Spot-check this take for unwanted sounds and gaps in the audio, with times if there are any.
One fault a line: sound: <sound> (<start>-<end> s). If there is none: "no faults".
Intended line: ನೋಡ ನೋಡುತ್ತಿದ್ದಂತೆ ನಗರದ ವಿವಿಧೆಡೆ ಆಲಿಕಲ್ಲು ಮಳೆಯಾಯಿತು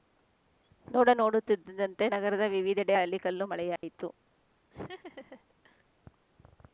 sound: dropout (3.8-3.8 s)
sound: laugh (4.7-5.8 s)